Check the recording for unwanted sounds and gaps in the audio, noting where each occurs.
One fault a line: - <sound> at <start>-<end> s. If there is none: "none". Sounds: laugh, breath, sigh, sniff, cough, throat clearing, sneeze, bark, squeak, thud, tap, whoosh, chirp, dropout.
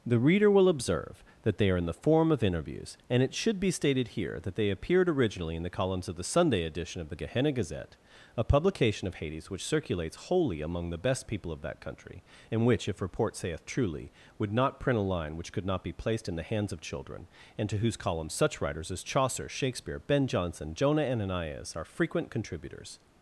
none